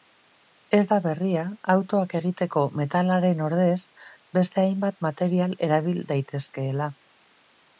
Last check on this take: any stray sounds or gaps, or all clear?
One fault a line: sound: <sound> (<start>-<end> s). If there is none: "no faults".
no faults